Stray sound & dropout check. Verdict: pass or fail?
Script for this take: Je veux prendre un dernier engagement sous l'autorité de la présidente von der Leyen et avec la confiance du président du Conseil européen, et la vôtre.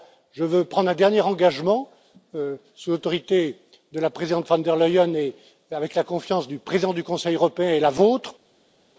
pass